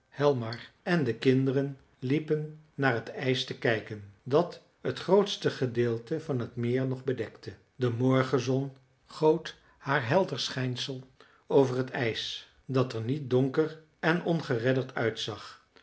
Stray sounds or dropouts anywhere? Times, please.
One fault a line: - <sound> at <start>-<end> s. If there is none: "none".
none